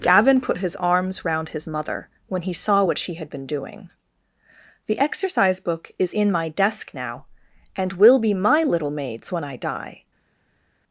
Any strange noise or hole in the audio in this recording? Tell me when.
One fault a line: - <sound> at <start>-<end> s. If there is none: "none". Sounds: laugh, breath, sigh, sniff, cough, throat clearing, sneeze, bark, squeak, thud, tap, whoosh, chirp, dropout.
none